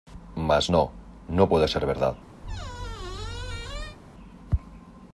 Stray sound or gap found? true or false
true